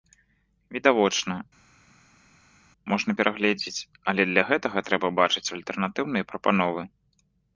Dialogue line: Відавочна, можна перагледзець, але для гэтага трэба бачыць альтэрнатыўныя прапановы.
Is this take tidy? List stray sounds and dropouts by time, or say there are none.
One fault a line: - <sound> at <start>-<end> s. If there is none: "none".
none